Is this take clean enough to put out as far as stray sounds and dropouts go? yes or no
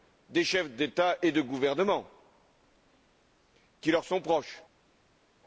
yes